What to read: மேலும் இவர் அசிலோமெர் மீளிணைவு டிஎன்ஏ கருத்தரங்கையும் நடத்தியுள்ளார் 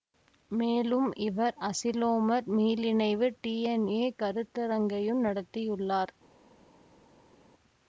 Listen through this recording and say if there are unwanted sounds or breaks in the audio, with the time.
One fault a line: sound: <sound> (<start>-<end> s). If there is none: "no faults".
no faults